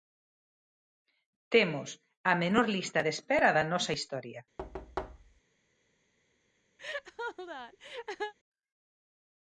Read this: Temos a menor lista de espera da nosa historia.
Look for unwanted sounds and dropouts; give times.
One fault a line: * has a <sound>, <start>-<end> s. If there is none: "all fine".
* has a thud, 4.6-5.4 s
* has a laugh, 6.8-8.3 s